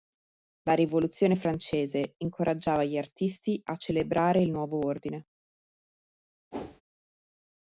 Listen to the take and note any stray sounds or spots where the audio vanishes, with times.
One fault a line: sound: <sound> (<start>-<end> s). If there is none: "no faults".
sound: whoosh (6.5-6.8 s)